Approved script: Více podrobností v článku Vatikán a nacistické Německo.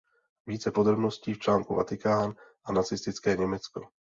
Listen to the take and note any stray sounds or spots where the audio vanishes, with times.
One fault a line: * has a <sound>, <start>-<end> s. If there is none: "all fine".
all fine